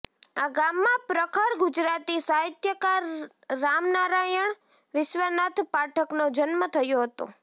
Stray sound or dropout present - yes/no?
no